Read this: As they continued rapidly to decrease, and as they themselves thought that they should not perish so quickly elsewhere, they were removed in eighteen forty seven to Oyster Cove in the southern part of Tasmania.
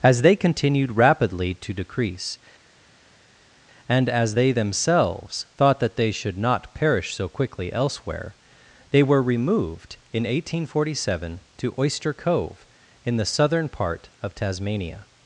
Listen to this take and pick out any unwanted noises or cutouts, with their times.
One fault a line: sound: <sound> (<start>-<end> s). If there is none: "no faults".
no faults